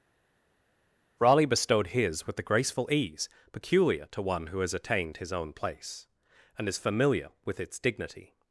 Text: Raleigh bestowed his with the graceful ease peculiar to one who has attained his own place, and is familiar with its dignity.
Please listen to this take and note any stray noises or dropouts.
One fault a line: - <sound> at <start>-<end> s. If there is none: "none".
none